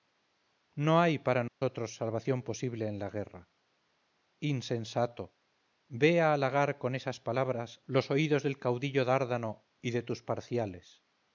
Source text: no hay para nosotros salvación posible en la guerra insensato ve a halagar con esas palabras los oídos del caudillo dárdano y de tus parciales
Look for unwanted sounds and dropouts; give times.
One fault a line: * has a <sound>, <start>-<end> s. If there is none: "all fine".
* has a dropout, 1.5-1.6 s